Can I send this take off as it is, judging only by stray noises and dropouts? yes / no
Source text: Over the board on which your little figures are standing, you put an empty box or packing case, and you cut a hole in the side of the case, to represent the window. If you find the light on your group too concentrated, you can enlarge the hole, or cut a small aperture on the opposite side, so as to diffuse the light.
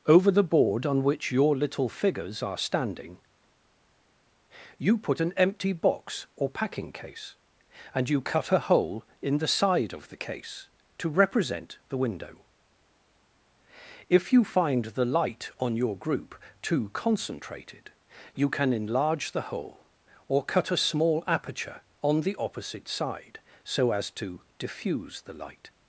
yes